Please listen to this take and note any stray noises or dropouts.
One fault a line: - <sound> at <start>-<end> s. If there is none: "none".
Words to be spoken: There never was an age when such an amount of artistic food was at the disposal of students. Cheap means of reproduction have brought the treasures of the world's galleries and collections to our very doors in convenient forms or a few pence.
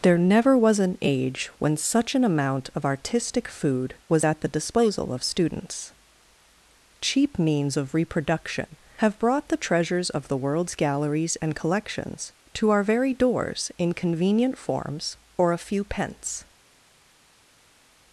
none